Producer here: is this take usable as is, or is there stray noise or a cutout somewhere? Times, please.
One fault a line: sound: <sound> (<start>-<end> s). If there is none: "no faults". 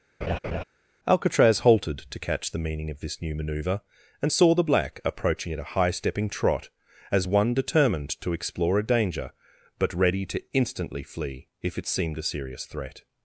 sound: laugh (0.2-0.6 s)